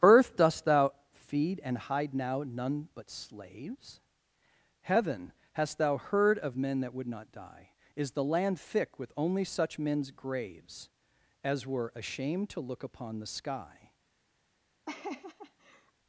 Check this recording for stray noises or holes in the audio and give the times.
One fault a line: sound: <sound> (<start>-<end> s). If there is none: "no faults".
sound: laugh (14.9-15.9 s)